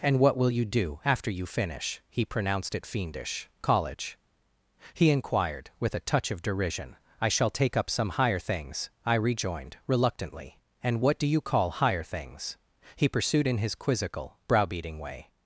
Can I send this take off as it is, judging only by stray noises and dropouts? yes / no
yes